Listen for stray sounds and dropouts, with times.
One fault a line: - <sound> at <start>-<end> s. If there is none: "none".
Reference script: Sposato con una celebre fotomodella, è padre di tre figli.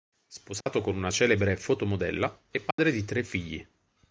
- dropout at 0.6-0.7 s
- dropout at 2.7-2.8 s